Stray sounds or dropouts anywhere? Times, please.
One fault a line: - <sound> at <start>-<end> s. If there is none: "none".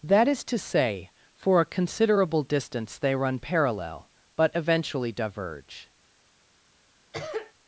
- cough at 7.1-7.5 s